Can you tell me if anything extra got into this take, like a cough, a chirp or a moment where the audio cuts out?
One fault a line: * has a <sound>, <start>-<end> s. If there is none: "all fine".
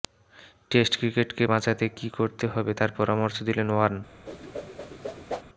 * has a whoosh, 4.3-5.4 s